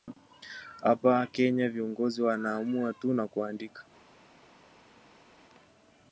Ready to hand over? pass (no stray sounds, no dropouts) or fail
pass